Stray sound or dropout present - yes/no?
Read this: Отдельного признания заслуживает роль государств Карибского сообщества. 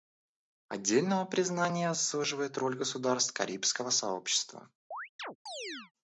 yes